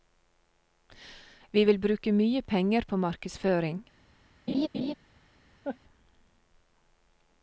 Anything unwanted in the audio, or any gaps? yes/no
yes